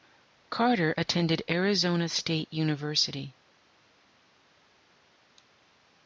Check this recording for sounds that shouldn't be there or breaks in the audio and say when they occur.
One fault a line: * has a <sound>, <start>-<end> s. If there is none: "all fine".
all fine